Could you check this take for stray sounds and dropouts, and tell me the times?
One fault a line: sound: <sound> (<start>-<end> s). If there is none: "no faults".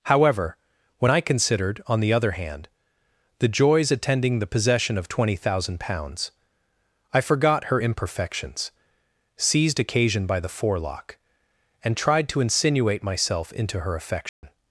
sound: dropout (14.3-14.4 s)